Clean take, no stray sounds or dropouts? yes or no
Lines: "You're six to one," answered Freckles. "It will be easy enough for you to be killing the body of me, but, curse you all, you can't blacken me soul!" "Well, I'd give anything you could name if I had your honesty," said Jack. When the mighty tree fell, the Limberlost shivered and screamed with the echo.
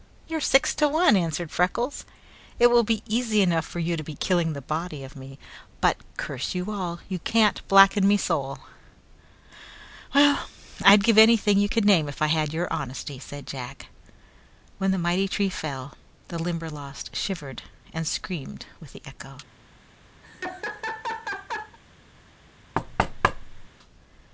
no